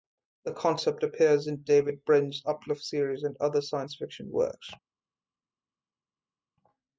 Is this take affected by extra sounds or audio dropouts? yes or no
no